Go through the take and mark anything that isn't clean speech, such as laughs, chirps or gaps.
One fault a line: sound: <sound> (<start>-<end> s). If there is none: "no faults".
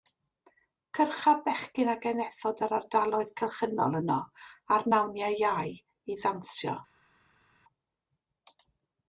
no faults